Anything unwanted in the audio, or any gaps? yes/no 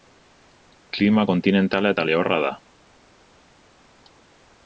no